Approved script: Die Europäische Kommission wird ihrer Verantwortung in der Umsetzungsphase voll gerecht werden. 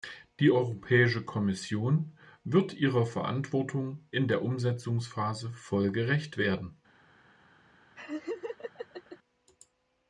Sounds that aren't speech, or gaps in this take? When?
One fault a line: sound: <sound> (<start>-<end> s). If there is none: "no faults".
sound: laugh (7.9-9.2 s)